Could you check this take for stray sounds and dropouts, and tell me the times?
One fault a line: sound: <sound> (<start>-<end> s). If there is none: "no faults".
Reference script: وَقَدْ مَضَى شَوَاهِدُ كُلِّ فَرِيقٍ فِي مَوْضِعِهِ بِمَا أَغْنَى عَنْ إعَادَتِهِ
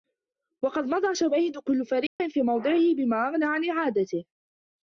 sound: dropout (2.1-2.2 s)